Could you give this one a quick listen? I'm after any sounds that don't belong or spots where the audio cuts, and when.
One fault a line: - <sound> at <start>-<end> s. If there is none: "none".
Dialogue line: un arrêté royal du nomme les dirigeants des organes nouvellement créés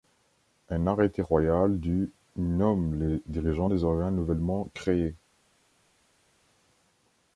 none